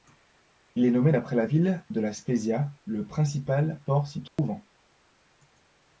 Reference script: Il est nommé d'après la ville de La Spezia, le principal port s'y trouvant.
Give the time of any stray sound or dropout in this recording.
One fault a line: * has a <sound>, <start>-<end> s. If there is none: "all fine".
* has a dropout, 4.3-4.4 s